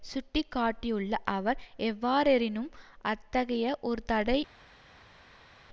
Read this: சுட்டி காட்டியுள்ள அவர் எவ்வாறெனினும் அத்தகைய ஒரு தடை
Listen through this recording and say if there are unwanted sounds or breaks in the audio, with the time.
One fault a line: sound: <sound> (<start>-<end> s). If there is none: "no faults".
no faults